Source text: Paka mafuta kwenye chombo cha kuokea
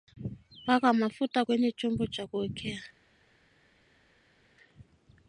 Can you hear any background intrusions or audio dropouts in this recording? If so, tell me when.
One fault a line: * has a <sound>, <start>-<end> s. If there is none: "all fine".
all fine